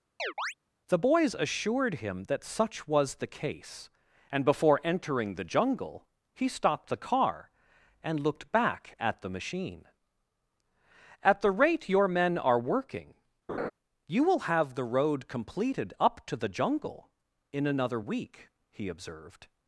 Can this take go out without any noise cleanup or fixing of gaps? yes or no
no